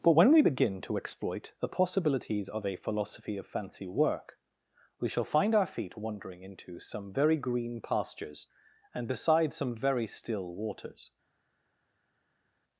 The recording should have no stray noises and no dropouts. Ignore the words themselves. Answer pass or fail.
pass